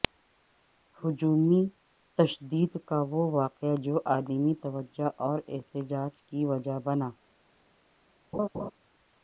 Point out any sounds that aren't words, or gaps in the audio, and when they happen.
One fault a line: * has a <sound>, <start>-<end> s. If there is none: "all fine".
* has a laugh, 8.3-8.7 s